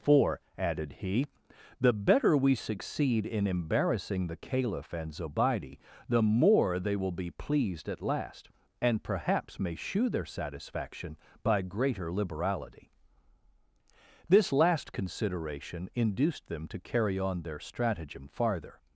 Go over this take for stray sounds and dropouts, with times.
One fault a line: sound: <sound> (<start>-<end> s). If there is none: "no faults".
no faults